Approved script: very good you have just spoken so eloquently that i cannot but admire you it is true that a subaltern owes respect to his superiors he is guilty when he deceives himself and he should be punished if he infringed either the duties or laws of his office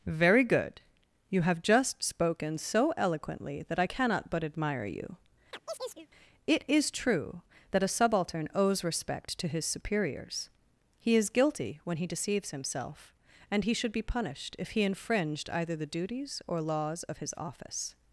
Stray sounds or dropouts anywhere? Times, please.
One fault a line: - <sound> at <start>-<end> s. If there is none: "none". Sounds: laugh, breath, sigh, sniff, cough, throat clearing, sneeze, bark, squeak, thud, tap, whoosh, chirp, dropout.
- chirp at 5.5-6.1 s